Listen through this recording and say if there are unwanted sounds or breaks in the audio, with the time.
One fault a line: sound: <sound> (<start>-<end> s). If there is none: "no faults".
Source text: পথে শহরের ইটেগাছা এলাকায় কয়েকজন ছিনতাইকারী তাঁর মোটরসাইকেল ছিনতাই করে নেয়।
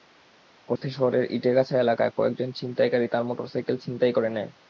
sound: dropout (0.8-0.8 s)